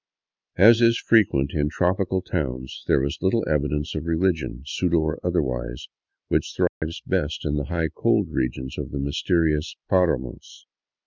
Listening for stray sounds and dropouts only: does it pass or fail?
fail